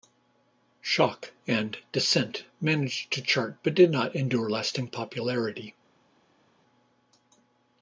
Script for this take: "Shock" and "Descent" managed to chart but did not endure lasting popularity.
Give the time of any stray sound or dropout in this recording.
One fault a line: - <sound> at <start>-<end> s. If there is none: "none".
none